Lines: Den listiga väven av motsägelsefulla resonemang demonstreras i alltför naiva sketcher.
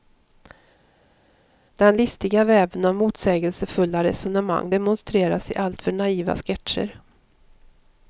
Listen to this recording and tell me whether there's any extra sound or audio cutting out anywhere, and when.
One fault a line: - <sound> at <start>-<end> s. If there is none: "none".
none